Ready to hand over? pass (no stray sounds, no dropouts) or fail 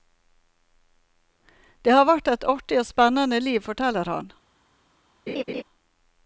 fail